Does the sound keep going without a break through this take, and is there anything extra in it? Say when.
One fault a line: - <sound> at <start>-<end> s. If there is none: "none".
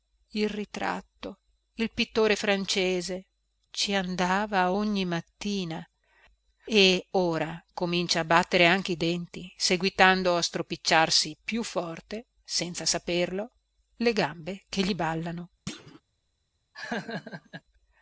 - thud at 15.7-16.0 s
- laugh at 16.7-17.6 s